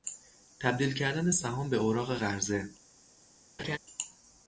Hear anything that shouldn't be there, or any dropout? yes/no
yes